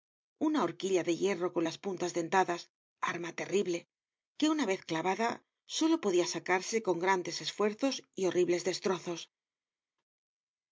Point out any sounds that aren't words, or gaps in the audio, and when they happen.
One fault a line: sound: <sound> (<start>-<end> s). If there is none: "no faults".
no faults